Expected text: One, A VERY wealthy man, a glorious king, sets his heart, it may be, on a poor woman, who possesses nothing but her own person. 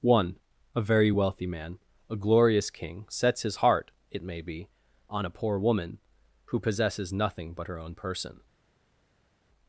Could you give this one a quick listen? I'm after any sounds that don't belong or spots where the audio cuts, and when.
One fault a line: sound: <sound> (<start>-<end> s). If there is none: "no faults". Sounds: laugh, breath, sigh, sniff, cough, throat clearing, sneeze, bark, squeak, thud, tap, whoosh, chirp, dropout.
no faults